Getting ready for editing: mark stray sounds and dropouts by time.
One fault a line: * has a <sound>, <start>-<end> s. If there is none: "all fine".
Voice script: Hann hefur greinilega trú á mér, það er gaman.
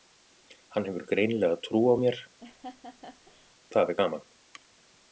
* has a laugh, 2.4-3.5 s